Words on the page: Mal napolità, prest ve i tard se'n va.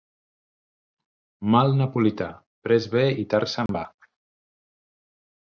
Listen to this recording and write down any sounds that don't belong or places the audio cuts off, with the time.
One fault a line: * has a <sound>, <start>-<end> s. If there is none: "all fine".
* has a dropout, 3.7-3.7 s